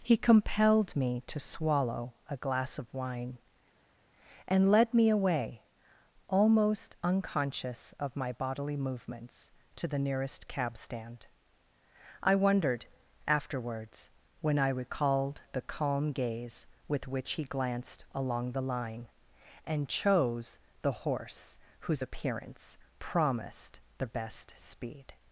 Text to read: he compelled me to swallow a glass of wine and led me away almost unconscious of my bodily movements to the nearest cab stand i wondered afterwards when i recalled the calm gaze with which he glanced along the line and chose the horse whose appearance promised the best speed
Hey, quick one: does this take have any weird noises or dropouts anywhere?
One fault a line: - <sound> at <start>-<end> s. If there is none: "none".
none